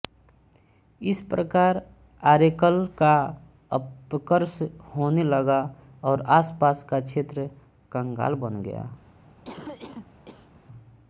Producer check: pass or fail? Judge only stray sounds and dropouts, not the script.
fail